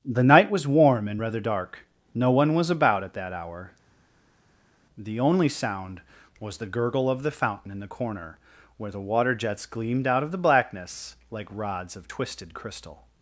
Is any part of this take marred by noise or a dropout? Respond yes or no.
no